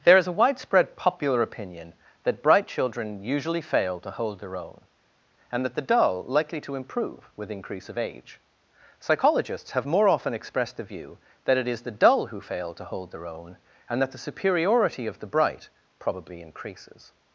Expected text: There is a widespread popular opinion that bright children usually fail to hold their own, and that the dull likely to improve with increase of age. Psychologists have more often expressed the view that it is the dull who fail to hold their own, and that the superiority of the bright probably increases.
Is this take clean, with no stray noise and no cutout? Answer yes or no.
yes